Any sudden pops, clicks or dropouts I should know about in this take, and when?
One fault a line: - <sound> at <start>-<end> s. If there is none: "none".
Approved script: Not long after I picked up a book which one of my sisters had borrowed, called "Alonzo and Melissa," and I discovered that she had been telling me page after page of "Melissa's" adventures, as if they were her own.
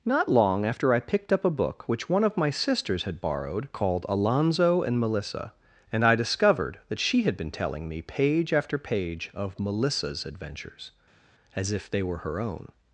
none